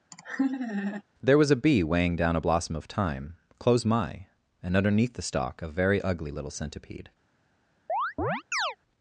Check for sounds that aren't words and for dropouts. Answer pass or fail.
fail